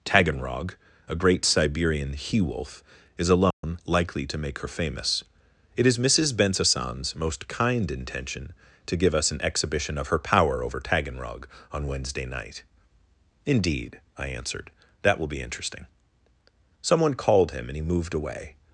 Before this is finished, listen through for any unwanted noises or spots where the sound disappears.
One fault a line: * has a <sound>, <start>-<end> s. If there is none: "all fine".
* has a dropout, 3.5-3.6 s